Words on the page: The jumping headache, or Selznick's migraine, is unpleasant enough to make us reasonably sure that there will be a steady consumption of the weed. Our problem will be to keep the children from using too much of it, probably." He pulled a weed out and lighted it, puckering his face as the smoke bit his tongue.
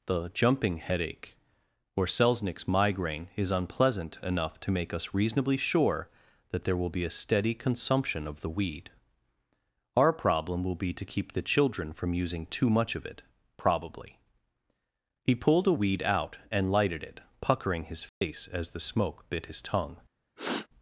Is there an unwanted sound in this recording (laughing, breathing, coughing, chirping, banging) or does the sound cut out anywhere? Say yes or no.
yes